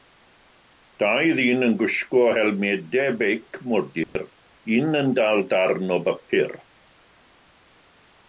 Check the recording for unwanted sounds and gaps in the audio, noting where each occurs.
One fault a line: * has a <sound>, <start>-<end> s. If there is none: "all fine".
* has a dropout, 4.0-4.2 s